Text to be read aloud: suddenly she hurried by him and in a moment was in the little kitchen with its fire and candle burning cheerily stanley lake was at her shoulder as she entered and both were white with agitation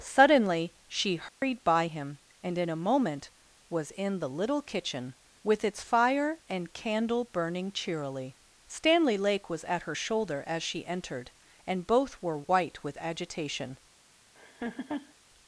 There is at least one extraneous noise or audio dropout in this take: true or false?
true